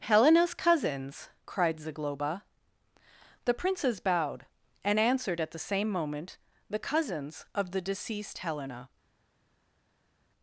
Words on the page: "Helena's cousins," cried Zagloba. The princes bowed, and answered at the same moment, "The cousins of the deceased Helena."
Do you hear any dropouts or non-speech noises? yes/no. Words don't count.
no